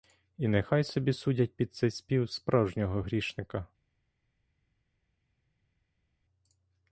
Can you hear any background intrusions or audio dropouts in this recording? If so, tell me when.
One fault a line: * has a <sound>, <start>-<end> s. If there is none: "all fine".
all fine